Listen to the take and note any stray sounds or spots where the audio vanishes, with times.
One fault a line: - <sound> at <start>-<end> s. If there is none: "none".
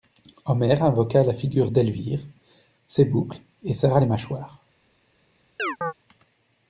- chirp at 5.6-5.9 s